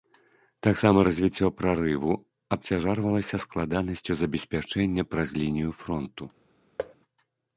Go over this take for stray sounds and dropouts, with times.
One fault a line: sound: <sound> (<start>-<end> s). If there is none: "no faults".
sound: thud (6.8-7.0 s)